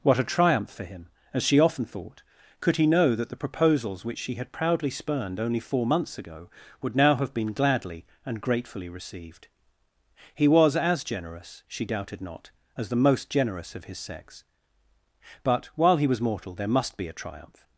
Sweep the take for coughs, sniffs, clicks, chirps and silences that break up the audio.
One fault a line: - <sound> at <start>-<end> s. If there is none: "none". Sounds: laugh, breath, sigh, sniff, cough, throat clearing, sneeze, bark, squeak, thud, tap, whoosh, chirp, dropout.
none